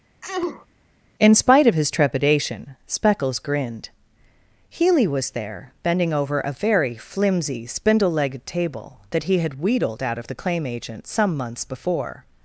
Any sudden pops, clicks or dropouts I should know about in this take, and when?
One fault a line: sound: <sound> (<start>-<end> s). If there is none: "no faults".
sound: sneeze (0.2-0.7 s)